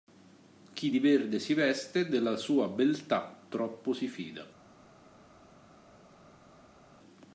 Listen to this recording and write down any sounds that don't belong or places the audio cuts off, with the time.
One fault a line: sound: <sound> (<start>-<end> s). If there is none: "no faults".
no faults